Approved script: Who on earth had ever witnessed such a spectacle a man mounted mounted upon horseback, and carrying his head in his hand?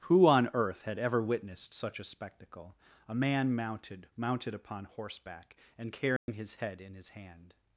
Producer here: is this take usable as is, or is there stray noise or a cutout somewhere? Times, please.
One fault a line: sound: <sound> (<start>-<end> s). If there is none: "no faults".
sound: dropout (6.2-6.3 s)